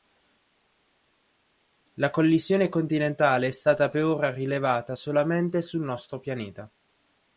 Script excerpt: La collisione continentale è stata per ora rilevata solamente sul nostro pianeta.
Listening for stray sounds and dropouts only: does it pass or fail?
pass